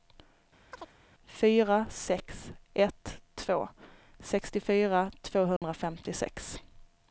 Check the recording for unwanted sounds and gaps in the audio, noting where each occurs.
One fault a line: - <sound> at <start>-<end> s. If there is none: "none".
- chirp at 0.7-0.9 s
- dropout at 5.6-5.6 s